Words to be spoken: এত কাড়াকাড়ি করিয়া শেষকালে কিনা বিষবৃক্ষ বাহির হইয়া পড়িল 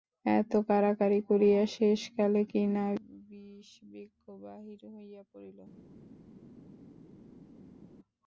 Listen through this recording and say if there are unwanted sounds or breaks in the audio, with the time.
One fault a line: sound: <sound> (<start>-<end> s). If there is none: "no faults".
no faults